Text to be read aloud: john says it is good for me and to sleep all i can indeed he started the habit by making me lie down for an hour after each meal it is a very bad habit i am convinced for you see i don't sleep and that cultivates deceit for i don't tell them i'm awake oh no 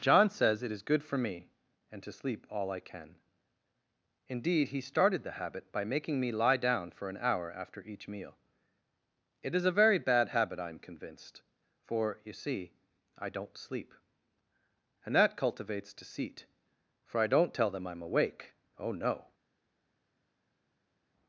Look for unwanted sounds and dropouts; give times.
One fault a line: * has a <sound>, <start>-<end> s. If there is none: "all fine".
all fine